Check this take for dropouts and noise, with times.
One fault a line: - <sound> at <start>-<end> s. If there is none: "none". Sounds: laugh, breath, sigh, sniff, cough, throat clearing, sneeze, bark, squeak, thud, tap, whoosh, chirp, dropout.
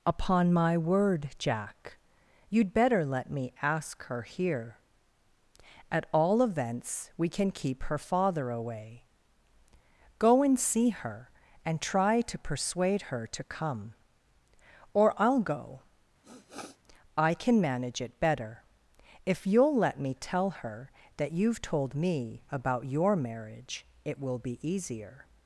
- sniff at 16.2-16.8 s